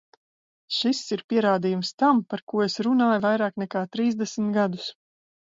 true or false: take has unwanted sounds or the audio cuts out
false